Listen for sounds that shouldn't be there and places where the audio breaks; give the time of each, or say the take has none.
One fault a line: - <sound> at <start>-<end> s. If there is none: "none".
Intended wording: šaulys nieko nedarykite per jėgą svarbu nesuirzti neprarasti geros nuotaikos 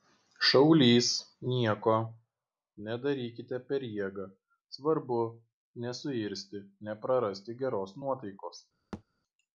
- thud at 8.9-9.0 s